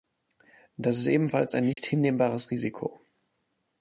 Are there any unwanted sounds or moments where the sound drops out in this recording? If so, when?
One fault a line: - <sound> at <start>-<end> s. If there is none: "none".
- dropout at 1.7-1.8 s